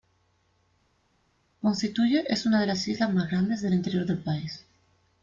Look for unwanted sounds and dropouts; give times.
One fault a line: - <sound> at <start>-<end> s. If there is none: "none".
none